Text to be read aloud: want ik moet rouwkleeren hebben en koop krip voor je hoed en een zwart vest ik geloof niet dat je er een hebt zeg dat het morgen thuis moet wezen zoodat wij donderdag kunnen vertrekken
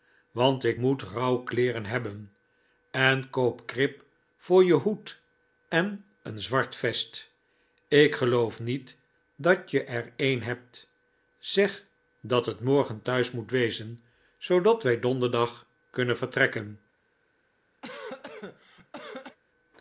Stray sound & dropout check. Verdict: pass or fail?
fail